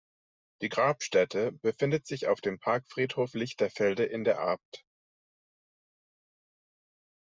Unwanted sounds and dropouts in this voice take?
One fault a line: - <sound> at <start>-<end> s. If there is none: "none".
none